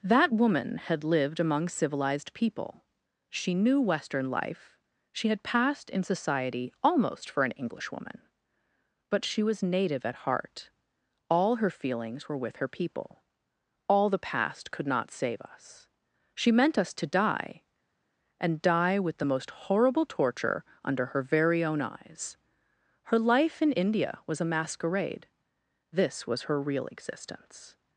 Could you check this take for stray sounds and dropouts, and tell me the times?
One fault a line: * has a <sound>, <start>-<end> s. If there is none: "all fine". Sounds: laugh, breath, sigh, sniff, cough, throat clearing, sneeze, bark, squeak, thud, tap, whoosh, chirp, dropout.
all fine